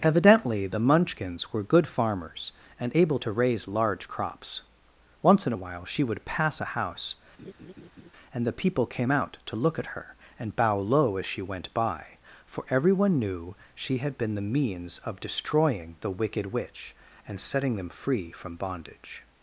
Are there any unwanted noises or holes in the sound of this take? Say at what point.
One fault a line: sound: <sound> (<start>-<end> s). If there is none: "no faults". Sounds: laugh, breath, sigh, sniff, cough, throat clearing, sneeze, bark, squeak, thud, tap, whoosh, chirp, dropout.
sound: laugh (7.4-8.1 s)